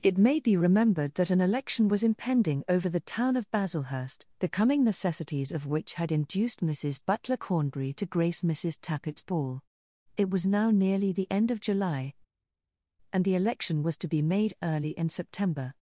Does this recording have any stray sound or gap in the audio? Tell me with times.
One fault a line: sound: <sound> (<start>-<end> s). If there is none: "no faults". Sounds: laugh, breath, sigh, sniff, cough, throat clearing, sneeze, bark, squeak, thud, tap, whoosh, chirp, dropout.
no faults